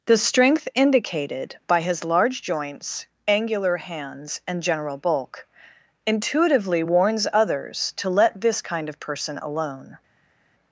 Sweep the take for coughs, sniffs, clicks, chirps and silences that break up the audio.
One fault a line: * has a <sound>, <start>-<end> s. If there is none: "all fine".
all fine